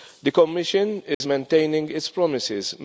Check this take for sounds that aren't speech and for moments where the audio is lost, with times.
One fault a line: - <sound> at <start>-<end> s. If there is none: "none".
- dropout at 1.1-1.2 s